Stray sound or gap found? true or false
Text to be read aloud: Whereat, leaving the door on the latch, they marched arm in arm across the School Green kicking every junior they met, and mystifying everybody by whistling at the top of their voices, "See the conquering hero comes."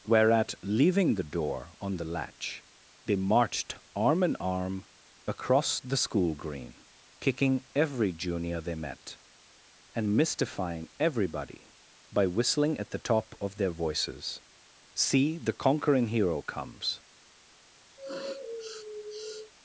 true